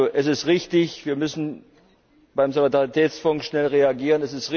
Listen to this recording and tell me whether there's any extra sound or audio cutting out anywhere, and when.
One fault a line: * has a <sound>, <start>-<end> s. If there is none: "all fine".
all fine